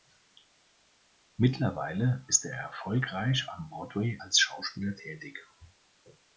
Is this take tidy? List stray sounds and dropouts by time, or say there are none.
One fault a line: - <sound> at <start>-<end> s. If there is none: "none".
none